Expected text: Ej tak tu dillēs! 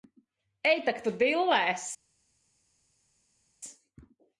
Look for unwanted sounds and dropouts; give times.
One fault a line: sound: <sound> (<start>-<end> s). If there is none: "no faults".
no faults